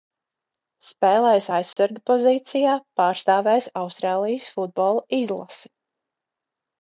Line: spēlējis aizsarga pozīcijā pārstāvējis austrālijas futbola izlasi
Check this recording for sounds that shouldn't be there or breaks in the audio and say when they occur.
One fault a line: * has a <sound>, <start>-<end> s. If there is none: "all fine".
* has a dropout, 1.7-1.8 s